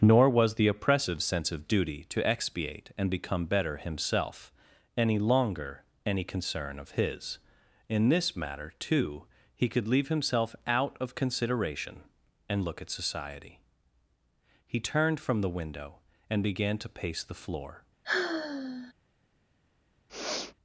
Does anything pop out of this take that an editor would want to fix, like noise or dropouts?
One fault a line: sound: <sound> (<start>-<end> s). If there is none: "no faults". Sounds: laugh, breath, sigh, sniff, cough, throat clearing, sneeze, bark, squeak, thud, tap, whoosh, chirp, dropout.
sound: sigh (18.0-18.9 s)
sound: sniff (20.1-20.5 s)